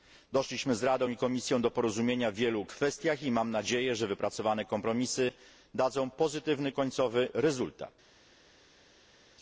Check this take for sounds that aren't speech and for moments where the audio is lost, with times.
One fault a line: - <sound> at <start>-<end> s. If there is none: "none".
none